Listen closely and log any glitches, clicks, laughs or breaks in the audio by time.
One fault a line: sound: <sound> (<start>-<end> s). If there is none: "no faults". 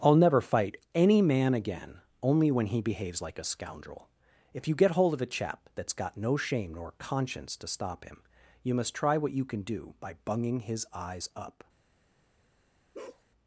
sound: bark (12.9-13.2 s)